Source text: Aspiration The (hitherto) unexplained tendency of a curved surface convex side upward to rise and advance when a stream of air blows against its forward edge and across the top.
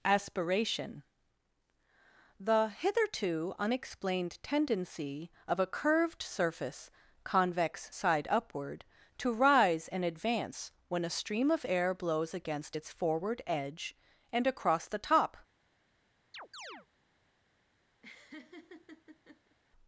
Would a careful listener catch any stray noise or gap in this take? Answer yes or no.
yes